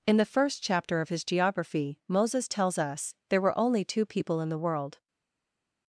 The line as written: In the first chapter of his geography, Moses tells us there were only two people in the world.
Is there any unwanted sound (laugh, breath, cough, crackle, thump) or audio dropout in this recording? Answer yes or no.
no